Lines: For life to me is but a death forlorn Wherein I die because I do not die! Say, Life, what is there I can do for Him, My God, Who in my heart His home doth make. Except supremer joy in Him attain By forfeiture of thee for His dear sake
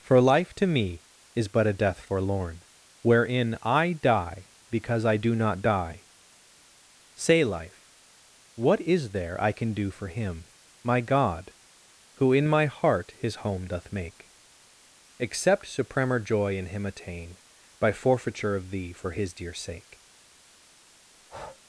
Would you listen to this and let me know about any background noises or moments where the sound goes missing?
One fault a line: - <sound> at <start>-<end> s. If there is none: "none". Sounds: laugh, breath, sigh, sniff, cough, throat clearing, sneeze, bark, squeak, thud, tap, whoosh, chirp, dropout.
- breath at 21.1-21.6 s